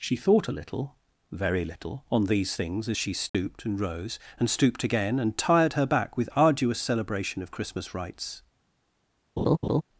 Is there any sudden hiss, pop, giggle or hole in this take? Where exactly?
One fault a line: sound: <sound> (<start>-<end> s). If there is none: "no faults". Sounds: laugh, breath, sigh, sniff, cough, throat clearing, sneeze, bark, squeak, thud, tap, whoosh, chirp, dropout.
sound: dropout (3.3-3.3 s)
sound: laugh (9.4-9.8 s)